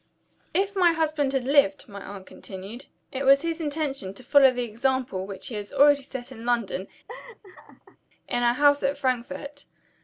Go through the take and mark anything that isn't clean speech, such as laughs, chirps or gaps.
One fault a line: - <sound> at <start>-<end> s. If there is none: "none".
- laugh at 7.1-8.0 s